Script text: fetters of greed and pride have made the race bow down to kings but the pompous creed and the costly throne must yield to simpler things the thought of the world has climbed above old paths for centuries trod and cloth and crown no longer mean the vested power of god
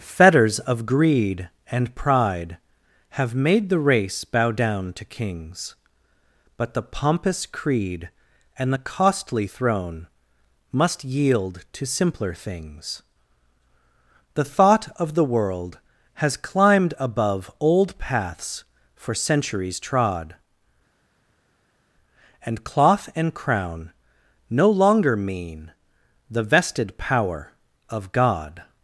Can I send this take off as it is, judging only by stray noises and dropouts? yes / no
yes